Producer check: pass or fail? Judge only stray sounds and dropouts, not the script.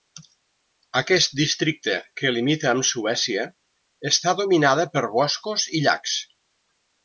pass